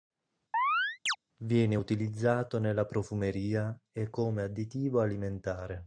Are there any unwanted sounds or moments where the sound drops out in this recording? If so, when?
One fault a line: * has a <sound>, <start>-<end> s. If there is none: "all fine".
* has a chirp, 0.5-1.2 s